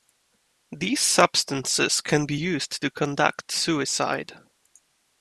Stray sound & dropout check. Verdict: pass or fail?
pass